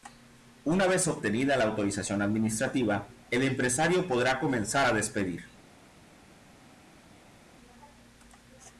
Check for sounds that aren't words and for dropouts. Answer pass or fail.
pass